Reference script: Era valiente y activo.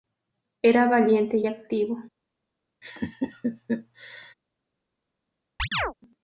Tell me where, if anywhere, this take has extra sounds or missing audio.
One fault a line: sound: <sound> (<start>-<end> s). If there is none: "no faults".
sound: laugh (2.8-4.3 s)
sound: chirp (5.6-5.9 s)